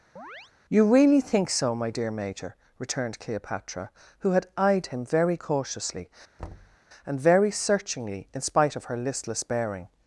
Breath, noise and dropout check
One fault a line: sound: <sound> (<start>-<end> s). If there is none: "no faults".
sound: chirp (0.2-0.5 s)
sound: thud (6.4-6.8 s)